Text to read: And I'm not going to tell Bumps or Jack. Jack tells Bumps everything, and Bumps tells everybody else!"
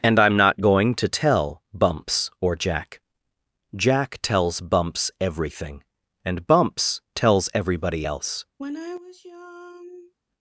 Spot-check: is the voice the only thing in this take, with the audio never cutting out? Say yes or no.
no